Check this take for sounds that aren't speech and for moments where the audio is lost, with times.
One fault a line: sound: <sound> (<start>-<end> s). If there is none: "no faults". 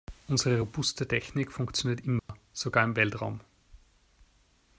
sound: dropout (2.2-2.3 s)